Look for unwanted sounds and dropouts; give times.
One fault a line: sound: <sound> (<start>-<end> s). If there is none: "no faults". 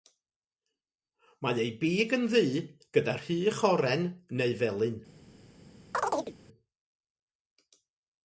sound: chirp (5.9-6.4 s)